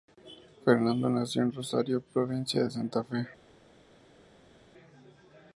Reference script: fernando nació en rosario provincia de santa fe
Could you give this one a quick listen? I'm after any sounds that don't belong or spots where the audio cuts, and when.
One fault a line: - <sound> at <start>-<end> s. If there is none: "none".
none